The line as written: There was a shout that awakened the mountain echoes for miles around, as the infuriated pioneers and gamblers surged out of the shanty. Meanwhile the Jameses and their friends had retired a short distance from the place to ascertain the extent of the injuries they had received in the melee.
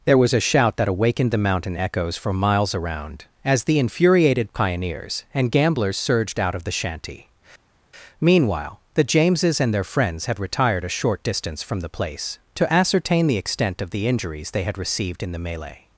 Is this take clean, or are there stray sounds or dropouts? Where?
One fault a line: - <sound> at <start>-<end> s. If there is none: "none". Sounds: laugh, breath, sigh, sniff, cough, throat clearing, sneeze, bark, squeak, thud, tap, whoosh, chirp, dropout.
none